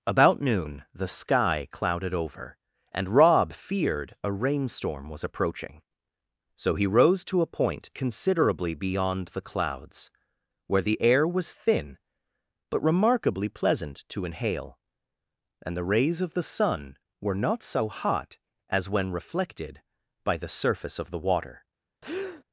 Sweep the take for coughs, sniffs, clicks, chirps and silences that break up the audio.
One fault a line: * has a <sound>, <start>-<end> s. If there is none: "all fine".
* has a breath, 22.0-22.4 s